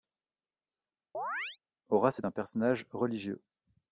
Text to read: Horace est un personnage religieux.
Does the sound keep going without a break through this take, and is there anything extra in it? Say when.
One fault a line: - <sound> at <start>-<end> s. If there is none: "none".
- chirp at 1.1-1.6 s